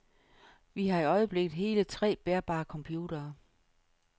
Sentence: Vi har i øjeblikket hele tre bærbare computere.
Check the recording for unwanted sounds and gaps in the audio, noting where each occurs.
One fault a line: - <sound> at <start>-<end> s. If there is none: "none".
none